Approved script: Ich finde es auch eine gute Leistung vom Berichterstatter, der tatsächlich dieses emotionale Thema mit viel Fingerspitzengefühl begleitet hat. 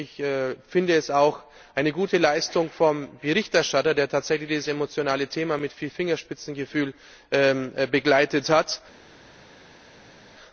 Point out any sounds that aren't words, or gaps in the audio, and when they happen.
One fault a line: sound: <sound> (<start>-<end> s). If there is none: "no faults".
no faults